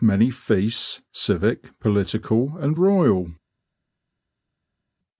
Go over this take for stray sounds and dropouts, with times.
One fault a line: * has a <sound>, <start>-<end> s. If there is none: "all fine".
all fine